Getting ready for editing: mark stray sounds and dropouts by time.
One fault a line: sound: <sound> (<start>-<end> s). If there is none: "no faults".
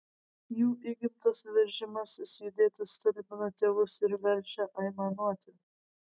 no faults